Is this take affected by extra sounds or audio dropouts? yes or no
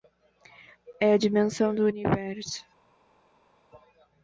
no